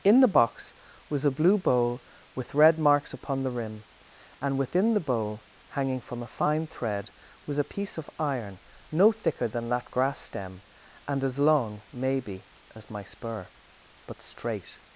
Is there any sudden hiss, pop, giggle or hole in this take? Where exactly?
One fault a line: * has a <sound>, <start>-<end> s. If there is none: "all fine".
all fine